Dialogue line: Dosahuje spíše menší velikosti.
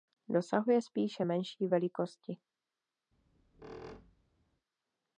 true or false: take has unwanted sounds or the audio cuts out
true